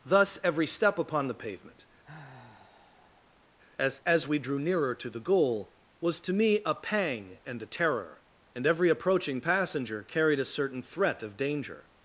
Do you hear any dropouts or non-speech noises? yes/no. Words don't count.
yes